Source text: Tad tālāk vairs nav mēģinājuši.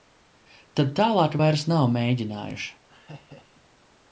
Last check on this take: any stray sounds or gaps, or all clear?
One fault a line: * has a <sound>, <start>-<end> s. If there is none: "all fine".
* has a laugh, 2.9-3.7 s